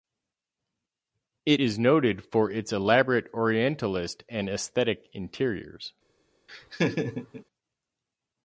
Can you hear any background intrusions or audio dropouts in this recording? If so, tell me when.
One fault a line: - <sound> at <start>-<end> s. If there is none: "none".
- laugh at 6.5-7.4 s